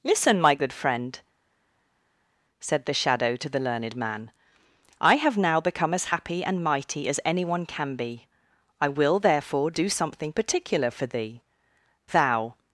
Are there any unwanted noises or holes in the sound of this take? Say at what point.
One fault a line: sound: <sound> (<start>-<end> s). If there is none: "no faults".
no faults